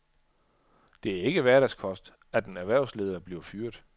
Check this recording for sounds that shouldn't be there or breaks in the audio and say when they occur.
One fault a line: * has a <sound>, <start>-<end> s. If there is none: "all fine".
all fine